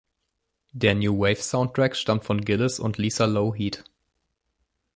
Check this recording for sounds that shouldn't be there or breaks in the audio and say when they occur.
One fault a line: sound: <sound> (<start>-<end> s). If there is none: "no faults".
no faults